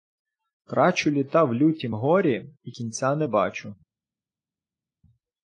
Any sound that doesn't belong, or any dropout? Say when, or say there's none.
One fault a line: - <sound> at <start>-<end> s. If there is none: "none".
none